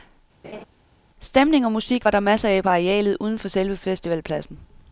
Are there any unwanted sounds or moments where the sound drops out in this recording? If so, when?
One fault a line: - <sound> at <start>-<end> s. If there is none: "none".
- laugh at 0.4-0.6 s